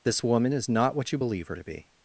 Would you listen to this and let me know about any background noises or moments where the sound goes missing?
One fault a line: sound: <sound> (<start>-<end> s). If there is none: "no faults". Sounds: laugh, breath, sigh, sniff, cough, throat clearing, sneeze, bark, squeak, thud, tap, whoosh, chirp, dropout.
no faults